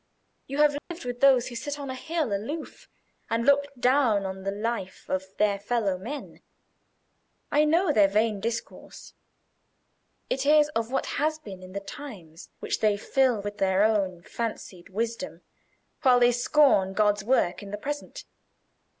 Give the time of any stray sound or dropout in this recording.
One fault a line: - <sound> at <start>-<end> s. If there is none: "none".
- dropout at 0.8-0.9 s